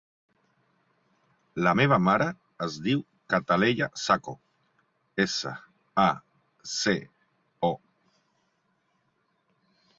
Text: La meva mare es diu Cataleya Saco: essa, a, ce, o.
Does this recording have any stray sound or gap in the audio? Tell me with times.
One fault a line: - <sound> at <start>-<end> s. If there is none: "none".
none